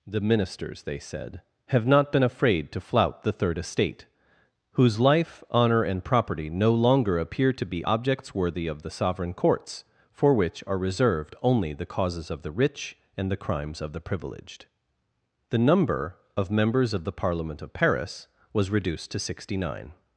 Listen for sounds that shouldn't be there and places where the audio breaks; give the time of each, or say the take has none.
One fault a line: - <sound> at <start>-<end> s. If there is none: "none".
none